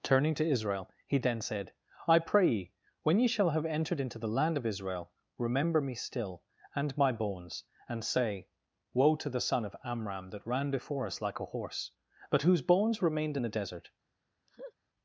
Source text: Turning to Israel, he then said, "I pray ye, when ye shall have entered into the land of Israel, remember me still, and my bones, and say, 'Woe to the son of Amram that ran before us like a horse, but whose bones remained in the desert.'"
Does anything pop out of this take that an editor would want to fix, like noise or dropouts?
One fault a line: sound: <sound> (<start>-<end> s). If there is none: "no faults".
sound: laugh (14.5-14.7 s)